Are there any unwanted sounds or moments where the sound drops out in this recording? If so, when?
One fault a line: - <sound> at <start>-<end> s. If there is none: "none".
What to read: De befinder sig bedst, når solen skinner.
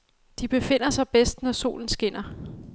none